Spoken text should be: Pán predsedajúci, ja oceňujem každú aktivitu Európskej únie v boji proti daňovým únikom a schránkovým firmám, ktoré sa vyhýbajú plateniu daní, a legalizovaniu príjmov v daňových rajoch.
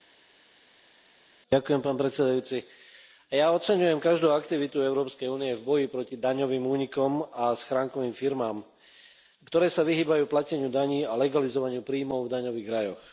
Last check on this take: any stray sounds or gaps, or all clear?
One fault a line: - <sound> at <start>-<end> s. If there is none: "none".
none